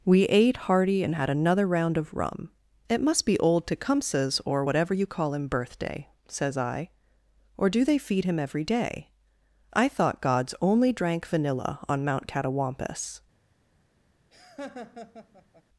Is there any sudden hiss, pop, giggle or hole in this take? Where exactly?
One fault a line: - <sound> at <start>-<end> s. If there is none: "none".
- laugh at 14.3-15.6 s